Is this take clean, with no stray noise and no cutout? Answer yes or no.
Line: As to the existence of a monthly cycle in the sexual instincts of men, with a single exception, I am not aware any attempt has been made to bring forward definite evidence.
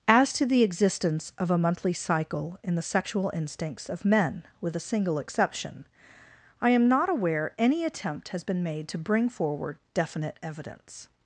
yes